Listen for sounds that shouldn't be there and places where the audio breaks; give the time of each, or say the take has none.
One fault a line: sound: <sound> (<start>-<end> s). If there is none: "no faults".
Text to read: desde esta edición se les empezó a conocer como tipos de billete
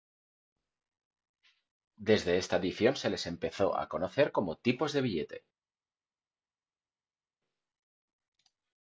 no faults